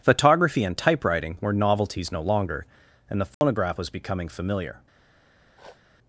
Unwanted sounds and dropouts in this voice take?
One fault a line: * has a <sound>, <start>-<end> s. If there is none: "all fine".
* has a dropout, 3.3-3.4 s
* has a sniff, 5.5-5.8 s